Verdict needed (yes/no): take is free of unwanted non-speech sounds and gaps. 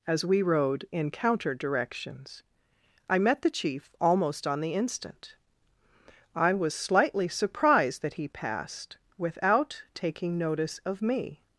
yes